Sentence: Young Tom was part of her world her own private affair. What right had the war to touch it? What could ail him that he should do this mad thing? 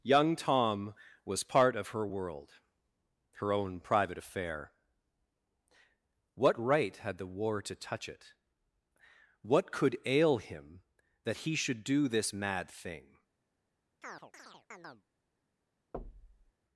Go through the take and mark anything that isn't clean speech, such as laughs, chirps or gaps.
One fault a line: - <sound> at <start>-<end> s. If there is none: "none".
- chirp at 14.0-15.0 s
- thud at 15.9-16.5 s